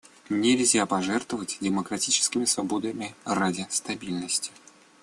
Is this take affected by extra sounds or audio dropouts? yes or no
no